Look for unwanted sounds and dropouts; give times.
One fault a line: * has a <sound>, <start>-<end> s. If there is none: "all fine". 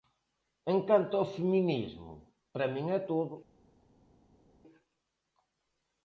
all fine